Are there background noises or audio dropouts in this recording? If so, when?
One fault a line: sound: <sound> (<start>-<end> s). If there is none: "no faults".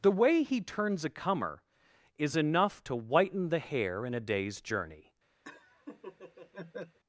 sound: laugh (5.4-7.0 s)